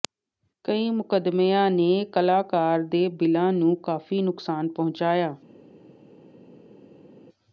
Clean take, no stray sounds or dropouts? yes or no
yes